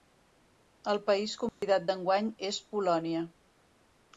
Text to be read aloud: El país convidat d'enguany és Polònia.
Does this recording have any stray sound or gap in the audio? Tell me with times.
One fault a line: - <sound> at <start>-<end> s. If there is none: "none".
- dropout at 1.5-1.6 s